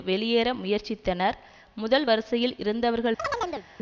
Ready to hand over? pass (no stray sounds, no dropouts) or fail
fail